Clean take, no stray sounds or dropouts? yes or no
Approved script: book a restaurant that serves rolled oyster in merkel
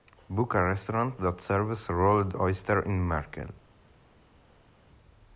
yes